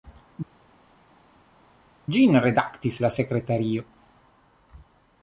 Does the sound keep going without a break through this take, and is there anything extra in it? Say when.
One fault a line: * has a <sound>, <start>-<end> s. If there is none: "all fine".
all fine